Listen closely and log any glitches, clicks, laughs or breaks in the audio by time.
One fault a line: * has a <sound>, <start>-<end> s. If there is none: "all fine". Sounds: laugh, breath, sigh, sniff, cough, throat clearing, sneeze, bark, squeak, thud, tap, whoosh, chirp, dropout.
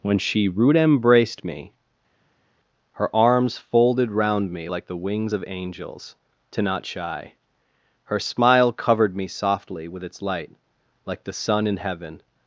all fine